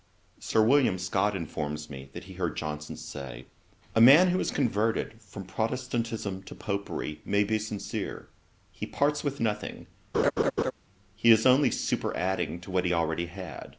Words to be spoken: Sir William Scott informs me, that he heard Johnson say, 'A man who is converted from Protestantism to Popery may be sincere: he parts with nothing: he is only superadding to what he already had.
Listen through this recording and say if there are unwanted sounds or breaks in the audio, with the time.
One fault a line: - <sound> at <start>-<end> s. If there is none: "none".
- laugh at 10.1-10.7 s